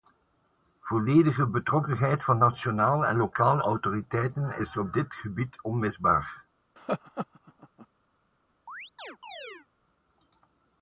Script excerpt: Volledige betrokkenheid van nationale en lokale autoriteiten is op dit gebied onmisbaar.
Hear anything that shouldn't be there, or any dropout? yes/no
yes